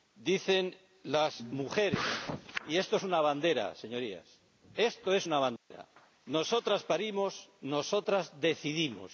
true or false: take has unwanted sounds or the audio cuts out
true